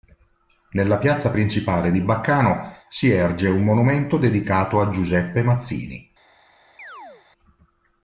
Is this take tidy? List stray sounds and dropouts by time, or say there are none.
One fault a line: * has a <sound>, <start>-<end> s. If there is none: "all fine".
* has a chirp, 6.8-7.2 s